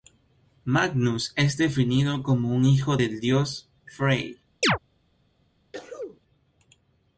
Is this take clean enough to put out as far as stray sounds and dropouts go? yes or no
no